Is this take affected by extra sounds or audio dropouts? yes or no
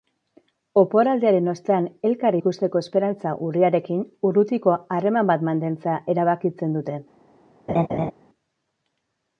yes